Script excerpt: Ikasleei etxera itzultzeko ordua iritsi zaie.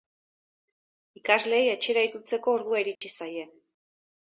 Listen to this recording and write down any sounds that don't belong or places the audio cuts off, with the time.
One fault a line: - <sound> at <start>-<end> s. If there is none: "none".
- dropout at 3.0-3.0 s